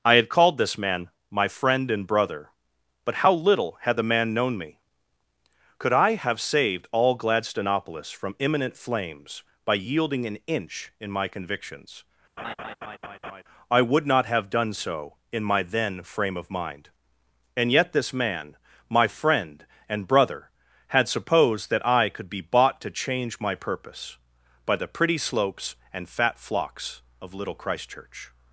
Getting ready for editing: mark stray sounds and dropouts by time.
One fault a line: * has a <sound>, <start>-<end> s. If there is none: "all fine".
* has a laugh, 12.4-13.4 s